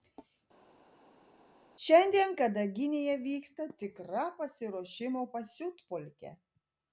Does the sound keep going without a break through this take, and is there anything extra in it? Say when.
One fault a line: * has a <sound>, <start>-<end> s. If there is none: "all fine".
all fine